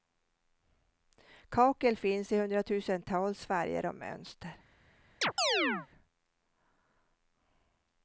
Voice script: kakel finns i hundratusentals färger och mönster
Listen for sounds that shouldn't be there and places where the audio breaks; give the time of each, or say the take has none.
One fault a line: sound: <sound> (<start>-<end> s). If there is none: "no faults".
sound: chirp (5.2-5.9 s)